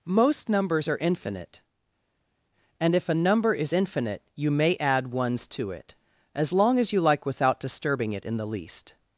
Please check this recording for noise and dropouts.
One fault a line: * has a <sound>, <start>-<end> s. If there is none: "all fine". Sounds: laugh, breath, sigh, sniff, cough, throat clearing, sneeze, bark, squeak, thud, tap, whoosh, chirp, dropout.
all fine